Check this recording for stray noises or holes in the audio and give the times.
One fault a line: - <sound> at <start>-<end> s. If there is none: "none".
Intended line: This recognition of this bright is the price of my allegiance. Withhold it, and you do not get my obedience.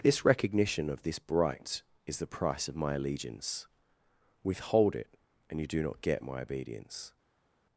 none